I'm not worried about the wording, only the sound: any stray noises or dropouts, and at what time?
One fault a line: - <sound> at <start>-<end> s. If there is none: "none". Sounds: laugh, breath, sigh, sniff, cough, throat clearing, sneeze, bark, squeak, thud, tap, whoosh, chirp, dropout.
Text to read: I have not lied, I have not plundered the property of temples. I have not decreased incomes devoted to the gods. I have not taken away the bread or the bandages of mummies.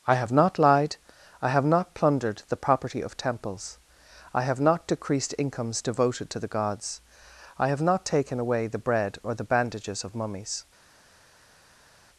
none